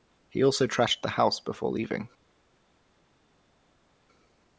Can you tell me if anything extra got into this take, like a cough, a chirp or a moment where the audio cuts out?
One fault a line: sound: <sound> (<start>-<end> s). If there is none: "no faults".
no faults